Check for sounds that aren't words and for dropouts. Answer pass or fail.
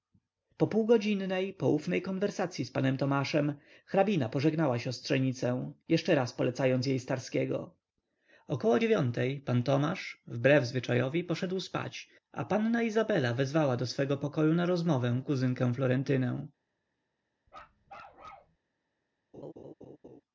fail